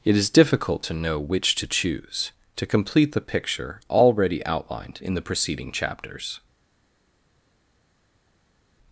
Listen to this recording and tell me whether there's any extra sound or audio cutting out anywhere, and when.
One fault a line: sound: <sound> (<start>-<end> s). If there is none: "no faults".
no faults